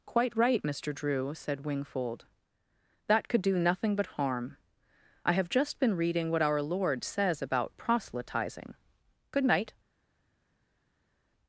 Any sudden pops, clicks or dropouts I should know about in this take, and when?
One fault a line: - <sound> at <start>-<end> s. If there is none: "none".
none